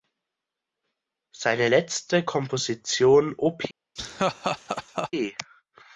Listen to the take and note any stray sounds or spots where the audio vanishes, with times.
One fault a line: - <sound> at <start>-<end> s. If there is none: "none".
- laugh at 4.0-5.1 s